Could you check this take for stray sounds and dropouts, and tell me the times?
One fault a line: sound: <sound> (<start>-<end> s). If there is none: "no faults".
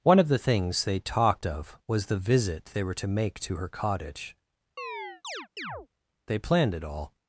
sound: chirp (4.8-5.9 s)